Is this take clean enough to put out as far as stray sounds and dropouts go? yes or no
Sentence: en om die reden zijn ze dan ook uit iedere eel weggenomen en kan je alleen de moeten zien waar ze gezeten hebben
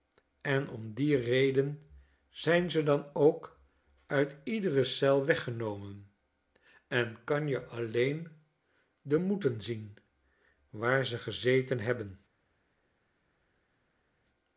yes